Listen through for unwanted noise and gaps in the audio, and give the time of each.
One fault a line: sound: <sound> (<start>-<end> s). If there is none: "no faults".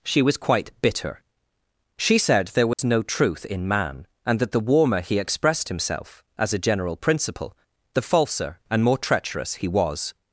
sound: dropout (2.7-2.8 s)